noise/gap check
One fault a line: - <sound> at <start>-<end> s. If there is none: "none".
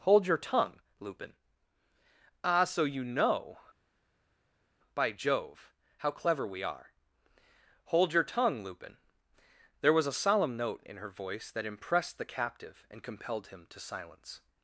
none